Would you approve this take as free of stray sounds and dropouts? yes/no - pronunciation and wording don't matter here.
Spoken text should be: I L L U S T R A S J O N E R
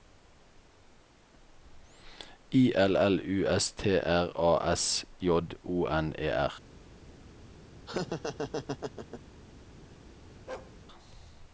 no